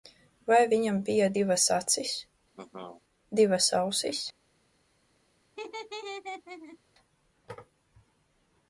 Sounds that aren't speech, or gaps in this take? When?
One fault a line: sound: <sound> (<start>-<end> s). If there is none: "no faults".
sound: laugh (2.5-3.0 s)
sound: laugh (5.6-6.8 s)